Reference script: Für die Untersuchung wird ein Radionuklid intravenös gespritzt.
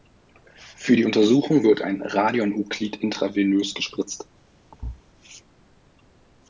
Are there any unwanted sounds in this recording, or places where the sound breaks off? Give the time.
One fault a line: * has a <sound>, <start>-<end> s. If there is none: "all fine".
* has a thud, 4.7-5.0 s